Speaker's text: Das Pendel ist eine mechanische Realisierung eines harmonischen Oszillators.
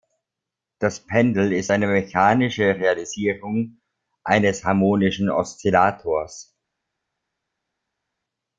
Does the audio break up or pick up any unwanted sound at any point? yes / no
no